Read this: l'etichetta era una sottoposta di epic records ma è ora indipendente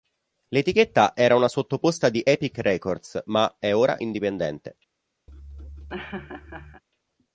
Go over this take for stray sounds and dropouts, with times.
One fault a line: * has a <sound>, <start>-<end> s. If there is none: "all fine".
* has a laugh, 5.3-6.8 s